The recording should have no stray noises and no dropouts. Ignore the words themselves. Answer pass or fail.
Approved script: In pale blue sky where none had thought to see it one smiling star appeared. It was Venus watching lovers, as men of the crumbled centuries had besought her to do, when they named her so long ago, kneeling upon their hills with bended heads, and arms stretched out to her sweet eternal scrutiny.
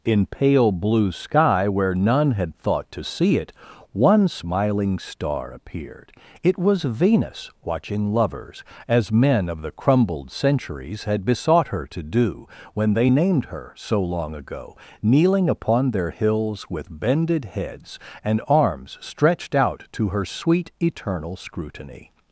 pass